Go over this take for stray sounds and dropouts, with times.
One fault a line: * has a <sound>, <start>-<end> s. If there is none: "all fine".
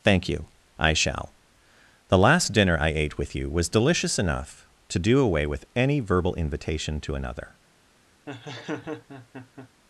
* has a laugh, 8.3-9.7 s